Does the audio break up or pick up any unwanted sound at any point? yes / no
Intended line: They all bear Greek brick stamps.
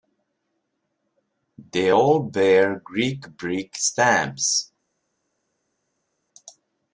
no